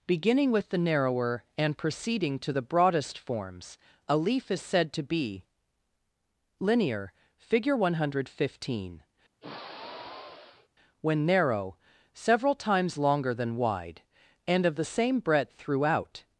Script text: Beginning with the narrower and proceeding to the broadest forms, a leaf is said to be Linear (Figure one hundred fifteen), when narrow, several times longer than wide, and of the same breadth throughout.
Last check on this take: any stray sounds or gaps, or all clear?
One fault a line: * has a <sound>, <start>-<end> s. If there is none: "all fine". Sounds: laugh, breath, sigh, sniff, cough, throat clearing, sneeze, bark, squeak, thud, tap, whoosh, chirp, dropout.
* has a sigh, 9.4-10.7 s